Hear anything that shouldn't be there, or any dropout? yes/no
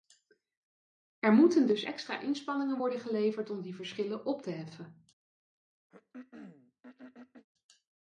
yes